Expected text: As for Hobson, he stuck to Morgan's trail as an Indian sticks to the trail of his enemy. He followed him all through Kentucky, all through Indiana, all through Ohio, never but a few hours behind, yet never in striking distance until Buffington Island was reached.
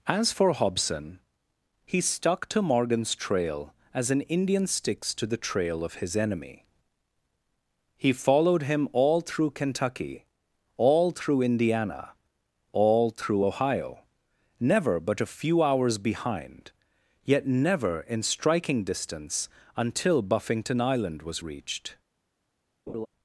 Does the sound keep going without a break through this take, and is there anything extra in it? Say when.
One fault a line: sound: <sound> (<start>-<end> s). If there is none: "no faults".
sound: laugh (22.9-23.1 s)